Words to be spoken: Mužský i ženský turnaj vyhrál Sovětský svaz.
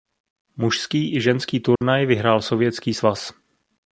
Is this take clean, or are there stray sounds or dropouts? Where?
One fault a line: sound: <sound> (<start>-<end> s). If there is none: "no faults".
sound: dropout (1.8-1.8 s)